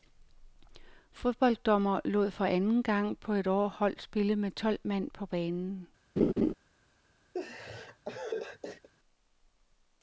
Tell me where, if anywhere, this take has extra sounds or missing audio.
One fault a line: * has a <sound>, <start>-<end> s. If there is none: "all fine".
* has a laugh, 6.2-6.5 s
* has a laugh, 7.3-8.9 s